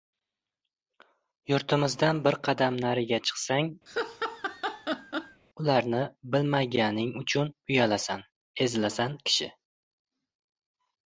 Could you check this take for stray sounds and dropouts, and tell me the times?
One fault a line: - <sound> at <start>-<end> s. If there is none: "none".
- laugh at 3.9-5.4 s